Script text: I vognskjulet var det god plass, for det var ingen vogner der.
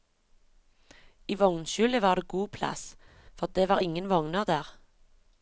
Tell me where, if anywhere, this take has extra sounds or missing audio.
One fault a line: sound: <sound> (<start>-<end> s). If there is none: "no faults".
no faults